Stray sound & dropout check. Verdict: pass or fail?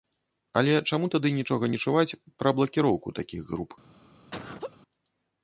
fail